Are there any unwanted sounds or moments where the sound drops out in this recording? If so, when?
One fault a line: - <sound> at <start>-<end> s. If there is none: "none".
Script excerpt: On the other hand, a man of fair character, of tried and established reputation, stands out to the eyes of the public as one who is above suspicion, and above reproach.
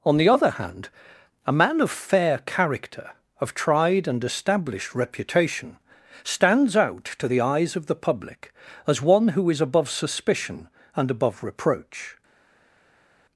none